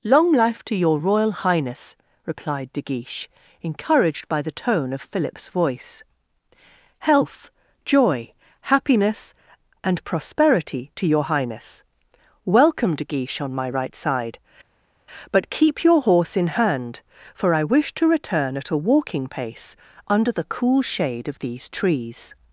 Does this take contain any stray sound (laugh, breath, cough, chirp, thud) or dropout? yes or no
no